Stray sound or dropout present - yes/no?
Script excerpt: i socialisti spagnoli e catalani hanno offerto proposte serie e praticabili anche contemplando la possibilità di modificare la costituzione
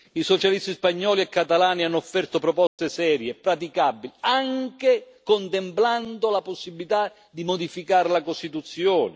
yes